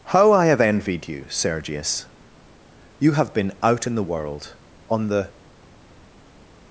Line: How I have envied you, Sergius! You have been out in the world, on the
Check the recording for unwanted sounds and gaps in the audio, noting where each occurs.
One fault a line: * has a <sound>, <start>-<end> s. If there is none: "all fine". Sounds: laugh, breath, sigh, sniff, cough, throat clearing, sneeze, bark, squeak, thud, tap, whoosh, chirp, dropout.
all fine